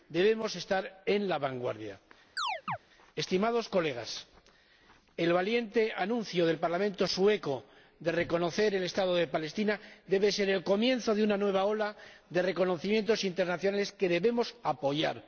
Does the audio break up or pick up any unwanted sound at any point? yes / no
yes